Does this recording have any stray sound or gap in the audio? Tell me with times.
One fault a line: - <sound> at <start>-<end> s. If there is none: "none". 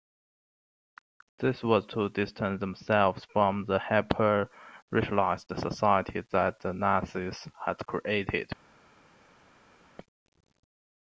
none